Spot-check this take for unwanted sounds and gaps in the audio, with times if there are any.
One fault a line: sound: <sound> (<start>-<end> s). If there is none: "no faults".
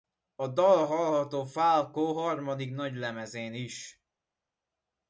no faults